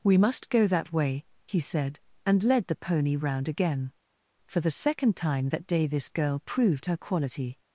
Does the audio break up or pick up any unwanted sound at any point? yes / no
no